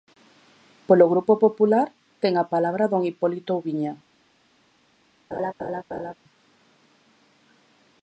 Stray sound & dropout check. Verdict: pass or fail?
fail